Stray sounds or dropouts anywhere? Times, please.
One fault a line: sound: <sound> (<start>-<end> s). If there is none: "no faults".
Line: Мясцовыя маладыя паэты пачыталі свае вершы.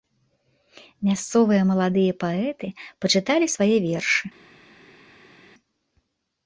no faults